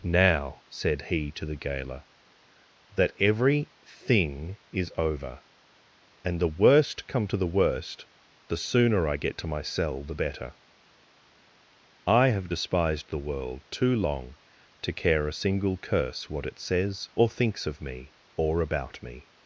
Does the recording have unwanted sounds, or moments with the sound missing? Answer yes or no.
no